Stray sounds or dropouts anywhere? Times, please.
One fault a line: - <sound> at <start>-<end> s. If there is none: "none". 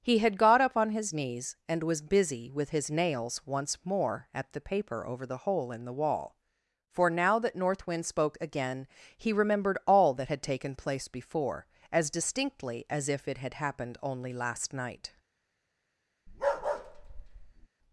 - bark at 16.3-17.7 s